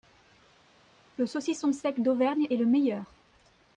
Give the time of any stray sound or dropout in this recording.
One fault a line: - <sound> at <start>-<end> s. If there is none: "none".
none